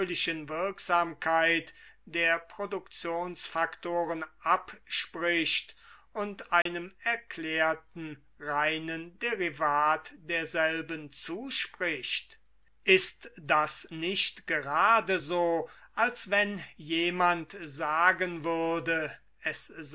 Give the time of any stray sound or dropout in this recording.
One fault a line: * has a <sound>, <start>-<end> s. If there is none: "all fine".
* has a dropout, 6.6-6.7 s